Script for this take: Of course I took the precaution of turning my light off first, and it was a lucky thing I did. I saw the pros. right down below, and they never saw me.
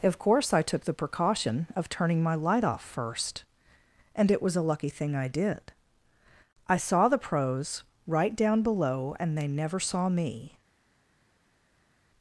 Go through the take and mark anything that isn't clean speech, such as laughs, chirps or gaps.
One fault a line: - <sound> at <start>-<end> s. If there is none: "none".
none